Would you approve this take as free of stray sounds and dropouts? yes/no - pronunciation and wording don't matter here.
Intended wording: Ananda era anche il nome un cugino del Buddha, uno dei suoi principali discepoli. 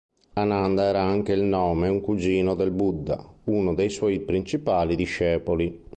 yes